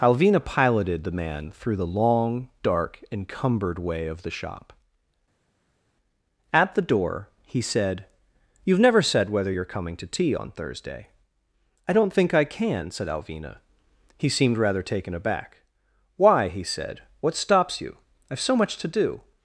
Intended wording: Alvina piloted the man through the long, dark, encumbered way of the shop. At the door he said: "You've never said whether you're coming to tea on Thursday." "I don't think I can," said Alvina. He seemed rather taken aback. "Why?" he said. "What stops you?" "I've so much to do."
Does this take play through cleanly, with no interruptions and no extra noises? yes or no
yes